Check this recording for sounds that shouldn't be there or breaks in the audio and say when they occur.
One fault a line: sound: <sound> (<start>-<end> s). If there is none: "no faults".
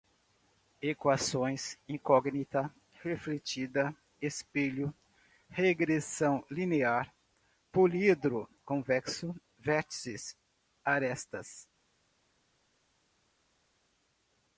no faults